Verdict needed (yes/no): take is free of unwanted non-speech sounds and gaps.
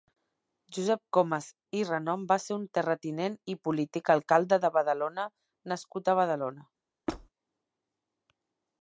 no